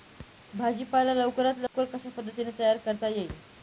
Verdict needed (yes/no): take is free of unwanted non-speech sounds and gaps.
no